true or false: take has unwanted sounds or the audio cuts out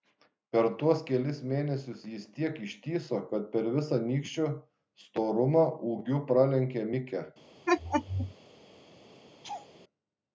true